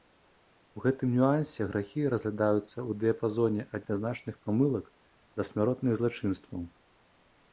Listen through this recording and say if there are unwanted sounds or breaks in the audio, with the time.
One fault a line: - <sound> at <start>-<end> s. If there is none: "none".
none